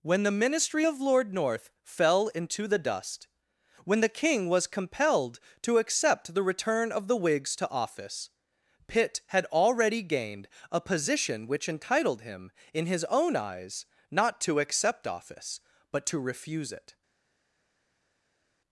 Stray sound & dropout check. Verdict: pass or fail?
pass